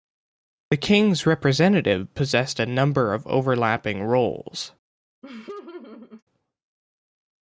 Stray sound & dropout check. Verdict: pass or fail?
fail